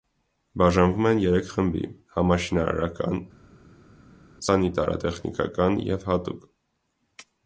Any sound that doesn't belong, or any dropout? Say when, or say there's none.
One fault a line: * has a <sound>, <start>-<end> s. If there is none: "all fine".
all fine